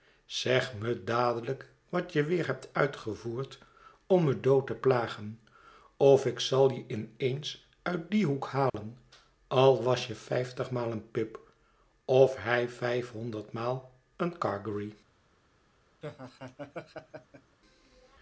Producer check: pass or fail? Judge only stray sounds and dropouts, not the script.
fail